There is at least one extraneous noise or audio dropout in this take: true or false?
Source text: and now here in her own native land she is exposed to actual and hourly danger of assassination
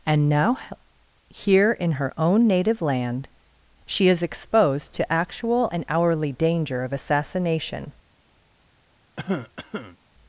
true